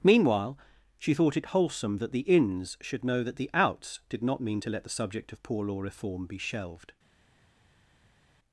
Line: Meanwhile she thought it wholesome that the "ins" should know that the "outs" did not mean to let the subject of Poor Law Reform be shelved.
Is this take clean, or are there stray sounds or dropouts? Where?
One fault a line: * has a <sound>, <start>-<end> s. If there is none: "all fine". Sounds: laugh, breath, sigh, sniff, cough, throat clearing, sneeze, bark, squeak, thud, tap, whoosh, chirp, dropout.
all fine